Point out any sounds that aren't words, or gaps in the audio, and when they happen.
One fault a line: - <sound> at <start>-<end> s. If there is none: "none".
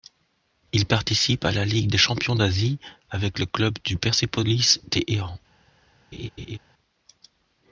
- laugh at 6.1-6.6 s